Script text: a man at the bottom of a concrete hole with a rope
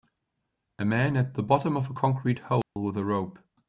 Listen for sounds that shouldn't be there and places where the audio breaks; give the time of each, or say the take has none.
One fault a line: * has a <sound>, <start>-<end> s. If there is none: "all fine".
* has a dropout, 2.6-2.8 s